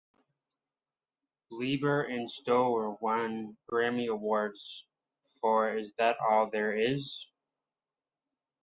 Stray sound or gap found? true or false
false